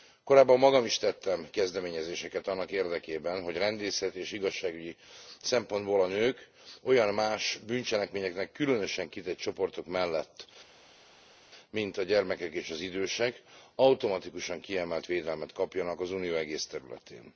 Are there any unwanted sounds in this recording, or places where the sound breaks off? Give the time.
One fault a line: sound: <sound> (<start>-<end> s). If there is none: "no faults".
no faults